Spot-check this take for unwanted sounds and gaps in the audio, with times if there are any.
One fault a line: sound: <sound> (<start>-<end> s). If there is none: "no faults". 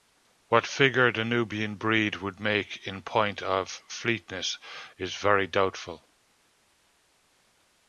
no faults